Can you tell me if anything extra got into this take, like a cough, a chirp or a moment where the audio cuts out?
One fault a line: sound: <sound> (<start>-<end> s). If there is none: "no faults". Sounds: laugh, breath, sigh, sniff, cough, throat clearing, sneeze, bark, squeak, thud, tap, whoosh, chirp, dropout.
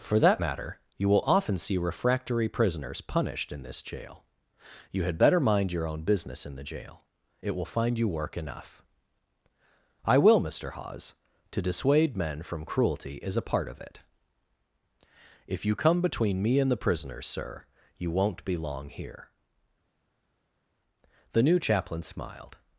no faults